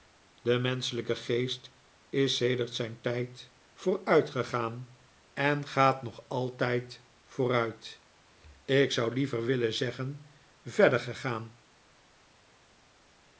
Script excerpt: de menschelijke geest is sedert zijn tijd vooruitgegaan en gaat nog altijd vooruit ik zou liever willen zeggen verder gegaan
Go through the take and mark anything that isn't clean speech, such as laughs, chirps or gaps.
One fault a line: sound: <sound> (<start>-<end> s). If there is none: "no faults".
no faults